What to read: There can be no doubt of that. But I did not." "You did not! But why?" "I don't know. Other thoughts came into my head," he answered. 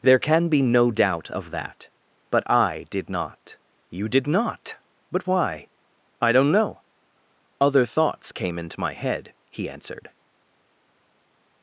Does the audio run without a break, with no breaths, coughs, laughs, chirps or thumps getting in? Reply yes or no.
yes